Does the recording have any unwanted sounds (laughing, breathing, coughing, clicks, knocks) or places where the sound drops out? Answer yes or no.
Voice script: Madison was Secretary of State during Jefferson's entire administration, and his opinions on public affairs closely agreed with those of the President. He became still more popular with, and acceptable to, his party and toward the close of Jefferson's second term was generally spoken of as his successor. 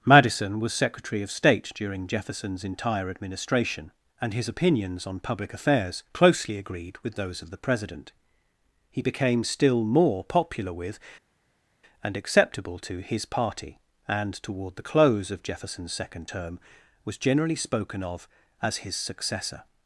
no